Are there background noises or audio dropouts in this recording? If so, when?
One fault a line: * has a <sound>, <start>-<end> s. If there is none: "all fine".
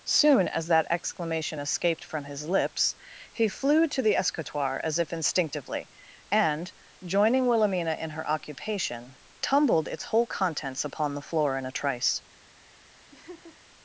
* has a laugh, 13.1-13.6 s